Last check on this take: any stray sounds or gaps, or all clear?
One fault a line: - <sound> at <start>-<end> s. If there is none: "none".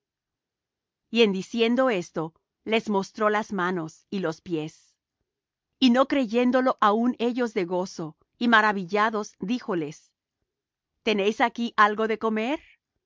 none